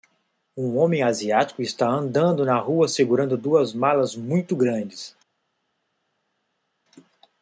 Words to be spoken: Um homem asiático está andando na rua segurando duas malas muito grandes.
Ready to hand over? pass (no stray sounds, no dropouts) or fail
pass